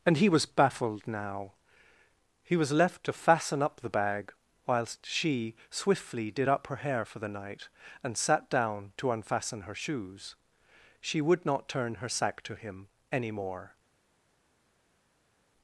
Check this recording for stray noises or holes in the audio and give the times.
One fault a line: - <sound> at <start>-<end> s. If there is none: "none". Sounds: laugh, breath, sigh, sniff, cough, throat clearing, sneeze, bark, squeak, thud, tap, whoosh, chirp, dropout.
none